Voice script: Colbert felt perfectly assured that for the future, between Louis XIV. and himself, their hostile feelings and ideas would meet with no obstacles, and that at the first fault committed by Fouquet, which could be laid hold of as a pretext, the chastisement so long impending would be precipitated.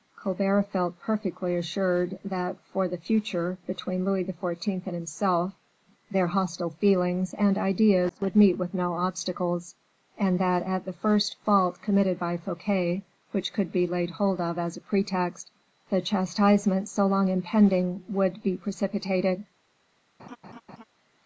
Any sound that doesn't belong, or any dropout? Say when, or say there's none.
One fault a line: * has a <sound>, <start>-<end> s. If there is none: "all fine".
* has a laugh, 20.2-20.8 s